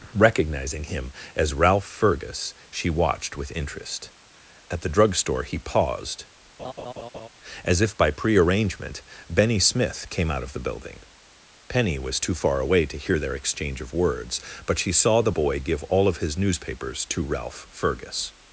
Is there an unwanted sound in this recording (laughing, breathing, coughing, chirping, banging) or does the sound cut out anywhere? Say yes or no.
yes